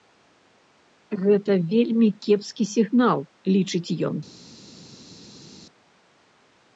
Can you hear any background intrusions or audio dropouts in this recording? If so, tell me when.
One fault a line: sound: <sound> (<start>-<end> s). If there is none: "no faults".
no faults